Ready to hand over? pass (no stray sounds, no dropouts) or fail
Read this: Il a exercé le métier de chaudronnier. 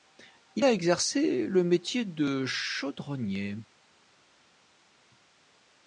pass